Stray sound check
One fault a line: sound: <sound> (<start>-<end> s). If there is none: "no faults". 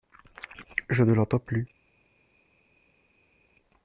no faults